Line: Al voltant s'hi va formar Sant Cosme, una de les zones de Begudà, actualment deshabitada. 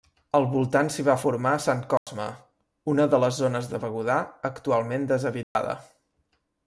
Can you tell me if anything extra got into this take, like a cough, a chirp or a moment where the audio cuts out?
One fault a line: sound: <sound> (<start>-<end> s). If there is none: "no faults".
sound: dropout (2.0-2.1 s)
sound: dropout (5.4-5.6 s)